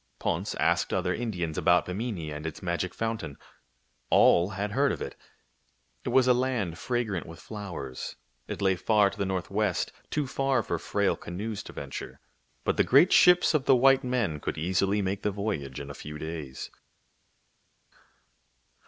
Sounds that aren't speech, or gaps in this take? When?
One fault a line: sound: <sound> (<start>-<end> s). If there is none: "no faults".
no faults